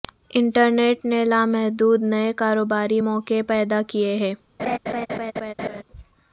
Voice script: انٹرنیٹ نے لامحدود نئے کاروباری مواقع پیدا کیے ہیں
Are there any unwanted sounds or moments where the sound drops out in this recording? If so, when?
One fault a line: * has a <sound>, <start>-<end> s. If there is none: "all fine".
* has a laugh, 4.6-5.8 s